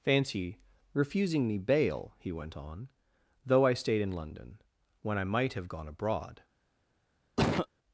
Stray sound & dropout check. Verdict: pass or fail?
fail